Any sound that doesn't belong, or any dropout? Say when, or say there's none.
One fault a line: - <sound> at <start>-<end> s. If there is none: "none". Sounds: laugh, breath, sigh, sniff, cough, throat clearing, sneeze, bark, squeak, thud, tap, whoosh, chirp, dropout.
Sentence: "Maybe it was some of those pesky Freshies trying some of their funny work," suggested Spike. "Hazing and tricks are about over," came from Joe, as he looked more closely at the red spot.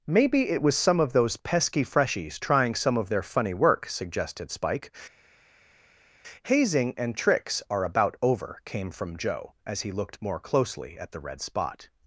none